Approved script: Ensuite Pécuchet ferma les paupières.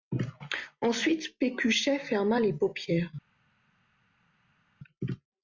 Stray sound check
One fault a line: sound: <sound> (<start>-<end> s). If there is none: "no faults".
no faults